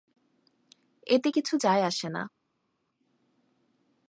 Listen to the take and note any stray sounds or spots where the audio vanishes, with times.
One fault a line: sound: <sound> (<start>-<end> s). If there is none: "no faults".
no faults